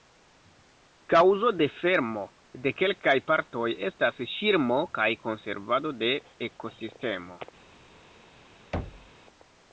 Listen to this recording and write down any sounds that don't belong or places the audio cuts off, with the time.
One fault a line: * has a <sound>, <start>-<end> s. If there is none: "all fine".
* has a thud, 8.7-9.1 s